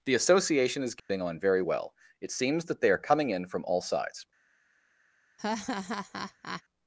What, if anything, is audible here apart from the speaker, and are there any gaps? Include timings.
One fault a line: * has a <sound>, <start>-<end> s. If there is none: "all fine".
* has a dropout, 1.0-1.1 s
* has a laugh, 5.4-6.6 s